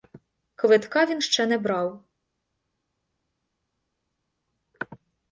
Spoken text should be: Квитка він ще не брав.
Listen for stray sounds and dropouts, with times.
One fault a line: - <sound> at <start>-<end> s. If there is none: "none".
none